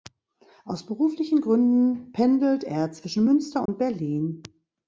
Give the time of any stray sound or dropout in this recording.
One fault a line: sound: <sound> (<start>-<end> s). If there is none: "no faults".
sound: dropout (3.7-3.7 s)